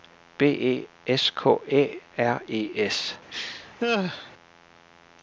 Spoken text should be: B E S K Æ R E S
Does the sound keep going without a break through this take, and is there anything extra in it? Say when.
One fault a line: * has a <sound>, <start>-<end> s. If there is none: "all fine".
* has a laugh, 3.3-4.3 s